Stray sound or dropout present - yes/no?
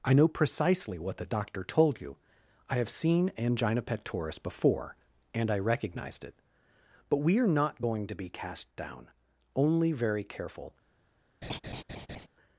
yes